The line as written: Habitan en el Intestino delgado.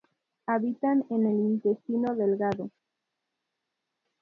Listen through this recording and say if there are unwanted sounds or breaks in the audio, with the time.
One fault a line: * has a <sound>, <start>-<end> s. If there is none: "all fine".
all fine